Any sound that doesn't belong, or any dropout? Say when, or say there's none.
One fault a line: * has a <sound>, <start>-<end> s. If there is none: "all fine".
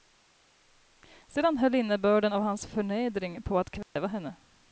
* has a dropout, 3.8-4.0 s